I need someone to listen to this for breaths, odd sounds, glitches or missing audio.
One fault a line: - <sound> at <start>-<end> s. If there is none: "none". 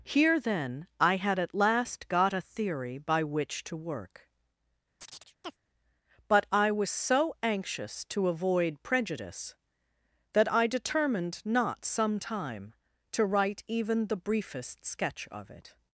- chirp at 5.0-5.6 s